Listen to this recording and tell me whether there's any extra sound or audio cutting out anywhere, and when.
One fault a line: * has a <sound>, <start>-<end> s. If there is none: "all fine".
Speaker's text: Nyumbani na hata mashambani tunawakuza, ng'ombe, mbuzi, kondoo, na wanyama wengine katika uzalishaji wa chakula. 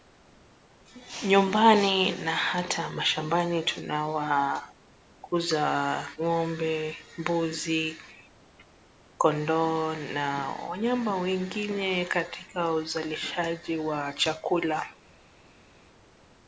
all fine